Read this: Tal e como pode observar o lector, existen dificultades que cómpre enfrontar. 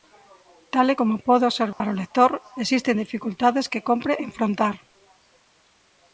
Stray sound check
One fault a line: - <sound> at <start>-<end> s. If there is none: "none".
- dropout at 1.7-1.8 s